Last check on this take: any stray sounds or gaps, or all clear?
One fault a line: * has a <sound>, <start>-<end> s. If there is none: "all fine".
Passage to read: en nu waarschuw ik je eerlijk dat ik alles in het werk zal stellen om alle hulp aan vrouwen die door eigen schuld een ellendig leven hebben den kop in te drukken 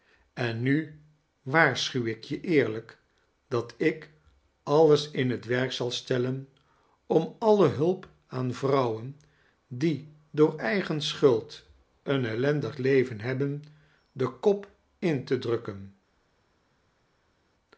all fine